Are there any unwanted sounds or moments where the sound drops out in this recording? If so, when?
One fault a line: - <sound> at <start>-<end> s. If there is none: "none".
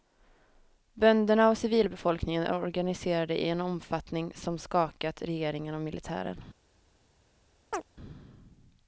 - chirp at 7.7-7.8 s